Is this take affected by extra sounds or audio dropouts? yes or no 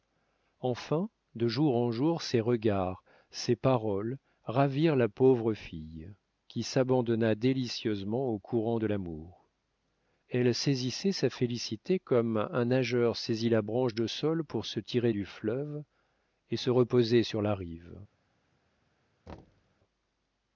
yes